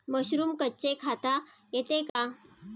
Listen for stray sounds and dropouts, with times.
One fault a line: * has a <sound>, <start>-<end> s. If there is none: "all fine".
* has a dropout, 2.1-2.2 s